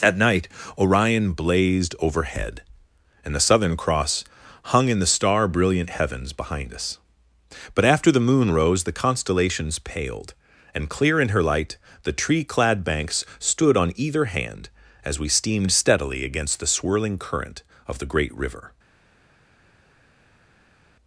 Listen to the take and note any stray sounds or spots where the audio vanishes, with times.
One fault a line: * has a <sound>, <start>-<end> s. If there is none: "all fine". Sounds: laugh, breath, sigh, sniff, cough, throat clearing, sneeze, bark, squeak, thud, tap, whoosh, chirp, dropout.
all fine